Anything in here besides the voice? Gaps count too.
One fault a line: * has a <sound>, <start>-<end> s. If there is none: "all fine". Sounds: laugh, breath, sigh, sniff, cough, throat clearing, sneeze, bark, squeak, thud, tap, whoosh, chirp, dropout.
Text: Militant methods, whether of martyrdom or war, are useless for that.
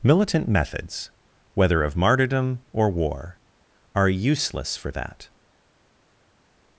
all fine